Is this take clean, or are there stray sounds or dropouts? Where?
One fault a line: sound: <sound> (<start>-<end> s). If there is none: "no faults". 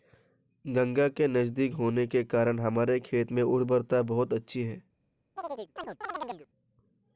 sound: chirp (5.4-6.5 s)